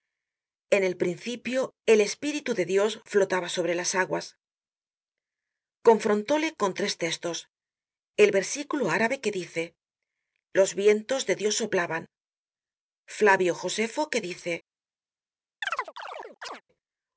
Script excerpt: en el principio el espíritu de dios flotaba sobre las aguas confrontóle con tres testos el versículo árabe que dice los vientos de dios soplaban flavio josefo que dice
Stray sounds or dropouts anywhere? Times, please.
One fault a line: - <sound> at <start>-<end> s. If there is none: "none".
- chirp at 15.6-16.6 s